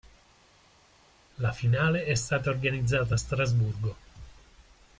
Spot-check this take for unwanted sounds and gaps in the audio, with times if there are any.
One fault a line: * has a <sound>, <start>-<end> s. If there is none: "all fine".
all fine